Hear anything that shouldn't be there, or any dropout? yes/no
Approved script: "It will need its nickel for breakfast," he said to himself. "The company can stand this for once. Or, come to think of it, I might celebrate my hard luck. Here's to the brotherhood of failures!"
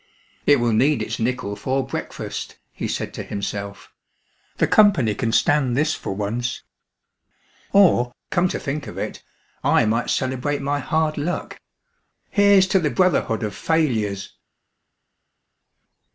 no